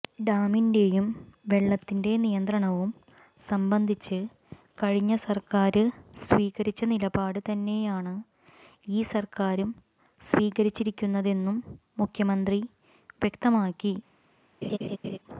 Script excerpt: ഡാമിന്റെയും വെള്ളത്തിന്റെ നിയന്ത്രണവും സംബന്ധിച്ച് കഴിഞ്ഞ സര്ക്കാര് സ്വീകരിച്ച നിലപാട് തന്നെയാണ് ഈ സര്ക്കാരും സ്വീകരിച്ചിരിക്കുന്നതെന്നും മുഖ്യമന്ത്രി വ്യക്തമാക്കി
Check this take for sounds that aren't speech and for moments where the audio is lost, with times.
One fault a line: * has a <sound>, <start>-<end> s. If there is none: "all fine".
* has a laugh, 14.6-15.2 s